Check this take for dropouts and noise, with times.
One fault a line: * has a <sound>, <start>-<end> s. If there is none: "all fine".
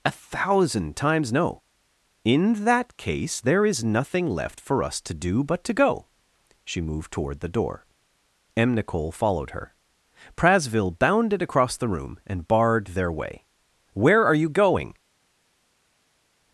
all fine